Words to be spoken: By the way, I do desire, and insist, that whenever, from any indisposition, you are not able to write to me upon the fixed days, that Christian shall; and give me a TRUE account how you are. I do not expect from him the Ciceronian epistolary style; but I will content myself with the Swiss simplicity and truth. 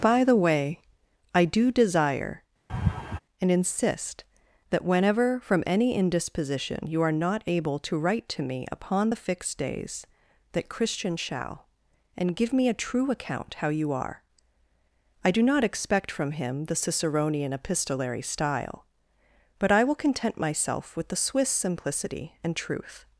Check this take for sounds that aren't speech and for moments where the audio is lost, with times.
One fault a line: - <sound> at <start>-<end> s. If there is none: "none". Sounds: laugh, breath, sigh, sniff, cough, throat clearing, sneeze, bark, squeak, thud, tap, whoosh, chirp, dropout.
- laugh at 2.7-3.2 s